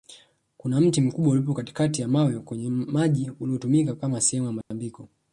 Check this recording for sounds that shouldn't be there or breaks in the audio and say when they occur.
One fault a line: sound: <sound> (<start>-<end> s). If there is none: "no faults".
sound: dropout (4.6-4.7 s)